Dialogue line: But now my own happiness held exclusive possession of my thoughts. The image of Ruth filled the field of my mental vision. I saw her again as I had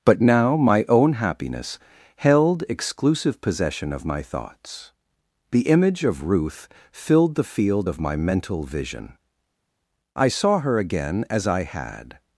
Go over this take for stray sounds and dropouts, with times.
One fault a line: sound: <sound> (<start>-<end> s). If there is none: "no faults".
no faults